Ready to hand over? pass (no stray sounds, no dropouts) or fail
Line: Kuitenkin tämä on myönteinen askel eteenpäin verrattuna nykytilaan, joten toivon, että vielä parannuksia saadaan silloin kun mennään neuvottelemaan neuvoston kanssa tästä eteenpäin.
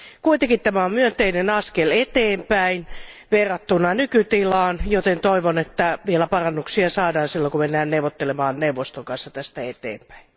pass